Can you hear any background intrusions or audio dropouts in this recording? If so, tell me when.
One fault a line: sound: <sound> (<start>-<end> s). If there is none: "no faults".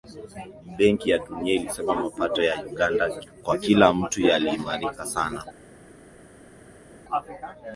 no faults